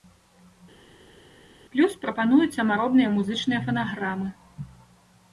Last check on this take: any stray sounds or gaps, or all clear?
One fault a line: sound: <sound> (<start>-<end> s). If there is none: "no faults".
no faults